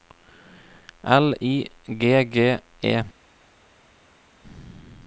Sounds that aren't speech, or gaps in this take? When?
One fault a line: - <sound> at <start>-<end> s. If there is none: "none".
none